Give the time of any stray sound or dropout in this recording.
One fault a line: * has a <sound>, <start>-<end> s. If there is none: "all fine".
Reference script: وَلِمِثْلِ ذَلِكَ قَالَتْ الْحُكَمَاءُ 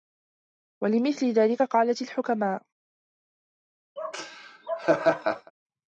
* has a laugh, 4.0-5.5 s